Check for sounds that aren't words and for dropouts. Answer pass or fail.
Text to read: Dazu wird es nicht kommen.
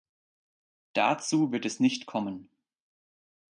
pass